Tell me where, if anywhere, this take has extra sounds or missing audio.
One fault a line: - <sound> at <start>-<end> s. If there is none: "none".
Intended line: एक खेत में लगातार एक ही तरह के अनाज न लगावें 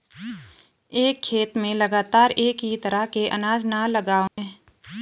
- dropout at 4.3-4.4 s